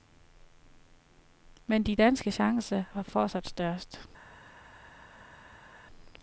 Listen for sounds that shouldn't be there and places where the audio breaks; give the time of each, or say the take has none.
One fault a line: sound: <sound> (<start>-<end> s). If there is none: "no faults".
no faults